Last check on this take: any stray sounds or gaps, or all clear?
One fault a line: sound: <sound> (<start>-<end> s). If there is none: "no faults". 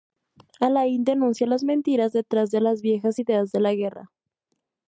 no faults